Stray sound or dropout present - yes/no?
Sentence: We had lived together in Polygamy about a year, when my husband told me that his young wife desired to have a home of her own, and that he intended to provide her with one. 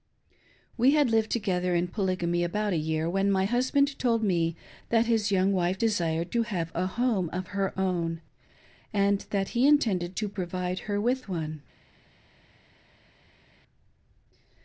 no